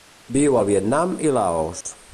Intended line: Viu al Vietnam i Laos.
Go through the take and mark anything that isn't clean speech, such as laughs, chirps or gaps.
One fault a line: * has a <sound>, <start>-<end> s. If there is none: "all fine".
* has a dropout, 1.8-1.9 s